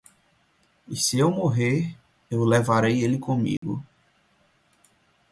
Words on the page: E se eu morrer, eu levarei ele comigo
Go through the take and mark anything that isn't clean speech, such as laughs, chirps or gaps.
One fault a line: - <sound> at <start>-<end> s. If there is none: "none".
- dropout at 3.6-3.6 s